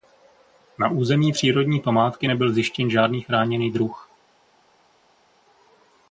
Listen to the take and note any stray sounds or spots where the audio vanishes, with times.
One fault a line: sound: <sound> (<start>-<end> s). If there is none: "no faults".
no faults